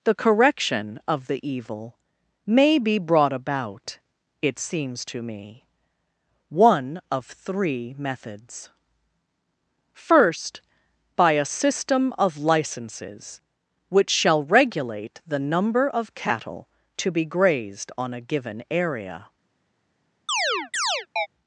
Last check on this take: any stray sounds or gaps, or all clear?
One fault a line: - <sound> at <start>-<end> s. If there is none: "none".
- chirp at 20.3-21.3 s